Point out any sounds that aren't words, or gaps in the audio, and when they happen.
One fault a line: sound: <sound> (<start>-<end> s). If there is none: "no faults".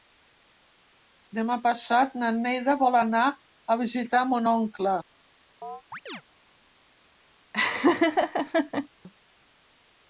sound: chirp (5.6-6.2 s)
sound: laugh (7.5-8.9 s)